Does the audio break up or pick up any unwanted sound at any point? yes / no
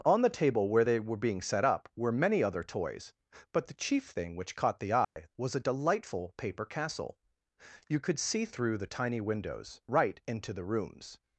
yes